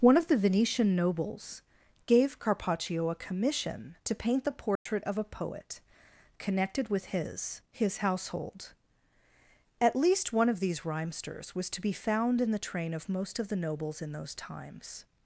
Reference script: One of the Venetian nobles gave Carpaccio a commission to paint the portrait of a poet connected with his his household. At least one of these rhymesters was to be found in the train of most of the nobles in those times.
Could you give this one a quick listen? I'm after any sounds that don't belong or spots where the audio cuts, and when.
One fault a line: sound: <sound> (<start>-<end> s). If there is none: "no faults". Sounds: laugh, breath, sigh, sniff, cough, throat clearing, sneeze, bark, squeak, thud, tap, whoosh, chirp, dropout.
sound: dropout (4.8-4.9 s)